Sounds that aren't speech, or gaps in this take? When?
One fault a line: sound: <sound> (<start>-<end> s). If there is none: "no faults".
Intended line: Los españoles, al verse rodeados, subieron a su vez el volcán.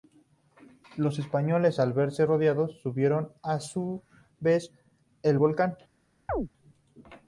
sound: chirp (6.3-6.5 s)